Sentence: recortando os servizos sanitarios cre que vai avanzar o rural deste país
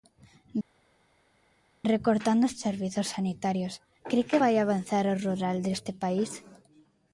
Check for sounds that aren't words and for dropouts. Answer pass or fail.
pass